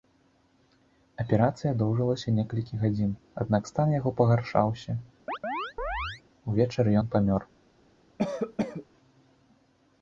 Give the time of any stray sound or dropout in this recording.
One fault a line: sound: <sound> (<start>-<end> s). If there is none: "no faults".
sound: chirp (5.3-6.2 s)
sound: cough (8.2-8.9 s)